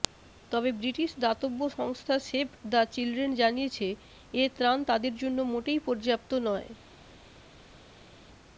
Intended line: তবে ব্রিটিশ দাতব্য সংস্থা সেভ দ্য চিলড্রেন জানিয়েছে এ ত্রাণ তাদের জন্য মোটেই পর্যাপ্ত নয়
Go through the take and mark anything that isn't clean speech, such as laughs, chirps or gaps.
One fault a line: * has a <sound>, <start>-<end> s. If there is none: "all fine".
all fine